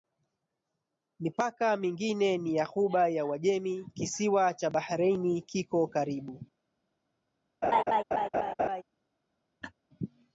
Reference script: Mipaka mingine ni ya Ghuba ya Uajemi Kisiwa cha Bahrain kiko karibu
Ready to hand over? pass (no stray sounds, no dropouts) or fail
fail